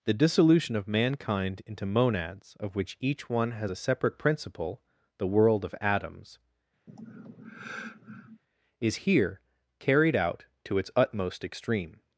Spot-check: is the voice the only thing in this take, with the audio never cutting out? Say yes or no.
no